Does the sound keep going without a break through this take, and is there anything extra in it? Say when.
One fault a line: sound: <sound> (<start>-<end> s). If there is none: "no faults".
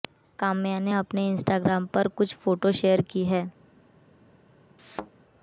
sound: thud (4.8-5.1 s)